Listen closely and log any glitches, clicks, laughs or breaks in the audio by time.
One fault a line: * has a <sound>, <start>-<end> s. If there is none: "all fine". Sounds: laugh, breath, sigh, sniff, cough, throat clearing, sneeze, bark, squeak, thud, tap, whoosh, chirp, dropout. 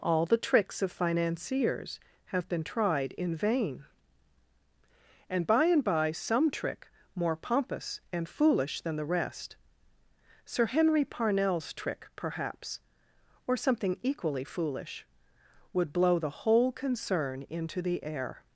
all fine